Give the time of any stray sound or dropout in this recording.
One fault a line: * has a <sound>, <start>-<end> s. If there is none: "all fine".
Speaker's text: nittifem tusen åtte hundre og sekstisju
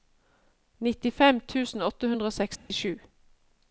* has a dropout, 2.6-2.7 s